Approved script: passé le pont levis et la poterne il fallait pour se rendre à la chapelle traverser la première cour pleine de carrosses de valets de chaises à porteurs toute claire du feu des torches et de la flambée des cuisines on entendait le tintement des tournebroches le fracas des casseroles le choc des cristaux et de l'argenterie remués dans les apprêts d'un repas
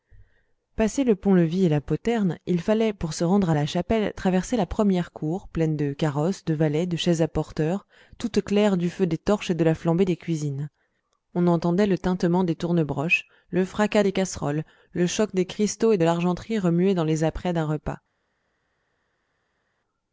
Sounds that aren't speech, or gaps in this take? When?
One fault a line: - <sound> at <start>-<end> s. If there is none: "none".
none